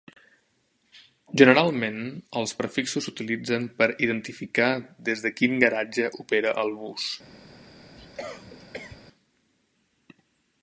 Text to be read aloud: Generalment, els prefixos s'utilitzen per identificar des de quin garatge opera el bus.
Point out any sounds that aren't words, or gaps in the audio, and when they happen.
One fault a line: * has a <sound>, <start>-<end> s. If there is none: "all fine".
* has a cough, 8.0-9.0 s